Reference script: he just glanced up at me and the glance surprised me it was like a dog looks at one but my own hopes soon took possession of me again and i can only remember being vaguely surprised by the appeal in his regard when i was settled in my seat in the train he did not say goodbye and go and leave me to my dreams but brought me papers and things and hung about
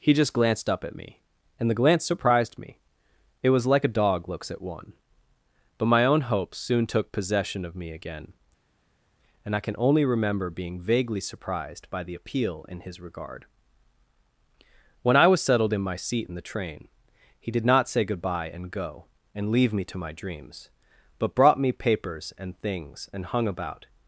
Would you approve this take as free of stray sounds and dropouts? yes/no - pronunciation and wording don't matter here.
yes